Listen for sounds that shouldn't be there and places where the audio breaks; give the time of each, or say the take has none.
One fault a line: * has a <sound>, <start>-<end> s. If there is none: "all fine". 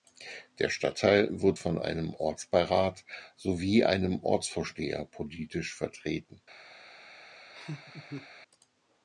* has a laugh, 7.5-8.3 s